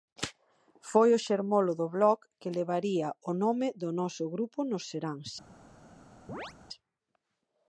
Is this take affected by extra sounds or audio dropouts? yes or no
yes